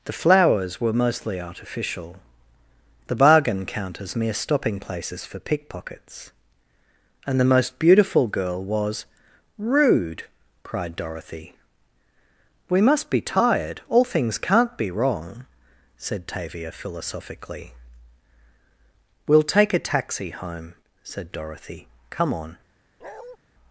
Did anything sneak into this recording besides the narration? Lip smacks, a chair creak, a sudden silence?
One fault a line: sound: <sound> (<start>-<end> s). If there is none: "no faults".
sound: bark (23.0-23.4 s)